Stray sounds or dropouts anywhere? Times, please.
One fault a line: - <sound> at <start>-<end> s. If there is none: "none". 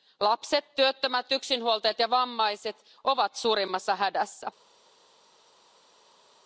none